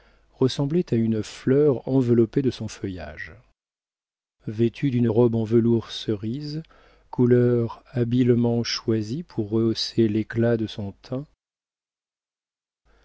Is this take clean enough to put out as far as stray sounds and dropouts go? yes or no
yes